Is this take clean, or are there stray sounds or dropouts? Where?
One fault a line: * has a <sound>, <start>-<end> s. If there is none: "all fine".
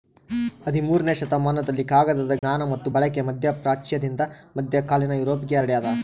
* has a dropout, 2.4-2.4 s